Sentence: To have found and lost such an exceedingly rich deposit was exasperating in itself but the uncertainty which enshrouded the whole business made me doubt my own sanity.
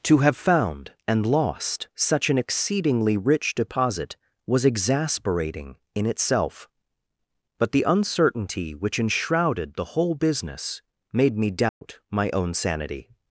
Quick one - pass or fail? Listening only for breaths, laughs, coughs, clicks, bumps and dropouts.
fail